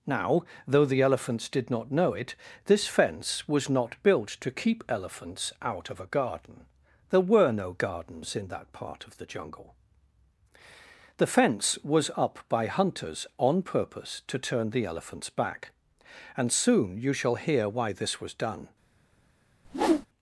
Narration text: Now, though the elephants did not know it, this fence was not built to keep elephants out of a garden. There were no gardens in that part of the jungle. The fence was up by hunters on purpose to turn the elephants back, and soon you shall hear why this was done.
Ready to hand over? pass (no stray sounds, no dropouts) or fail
fail